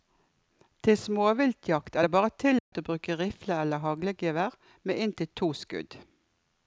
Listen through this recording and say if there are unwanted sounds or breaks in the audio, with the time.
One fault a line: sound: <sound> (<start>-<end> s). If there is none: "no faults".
sound: dropout (2.6-2.7 s)